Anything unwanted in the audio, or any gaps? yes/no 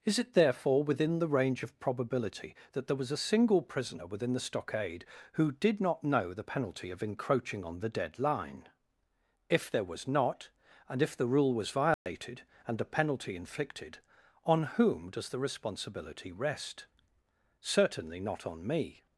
yes